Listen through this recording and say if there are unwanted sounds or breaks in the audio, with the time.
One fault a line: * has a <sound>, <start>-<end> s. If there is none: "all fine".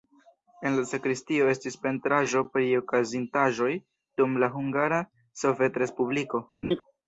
* has a laugh, 6.6-6.8 s